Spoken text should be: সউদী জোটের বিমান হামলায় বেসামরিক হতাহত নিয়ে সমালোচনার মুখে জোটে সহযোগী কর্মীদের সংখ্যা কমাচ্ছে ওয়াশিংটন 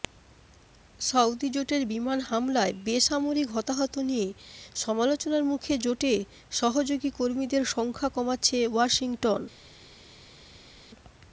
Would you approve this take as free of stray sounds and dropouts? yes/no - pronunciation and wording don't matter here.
yes